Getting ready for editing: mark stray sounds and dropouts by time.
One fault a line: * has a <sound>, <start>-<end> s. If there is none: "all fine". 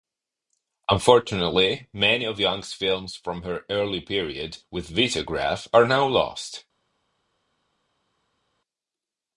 all fine